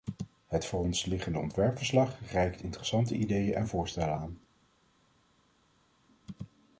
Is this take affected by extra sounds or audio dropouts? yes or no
no